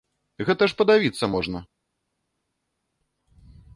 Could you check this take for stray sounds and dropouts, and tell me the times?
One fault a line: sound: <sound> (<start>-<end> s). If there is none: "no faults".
no faults